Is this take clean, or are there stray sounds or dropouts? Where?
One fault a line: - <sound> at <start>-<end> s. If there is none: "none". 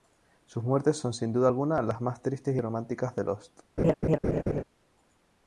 - laugh at 3.8-4.6 s